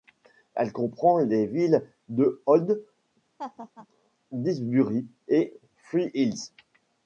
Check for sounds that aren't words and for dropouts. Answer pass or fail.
fail